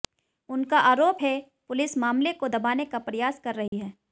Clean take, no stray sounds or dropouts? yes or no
no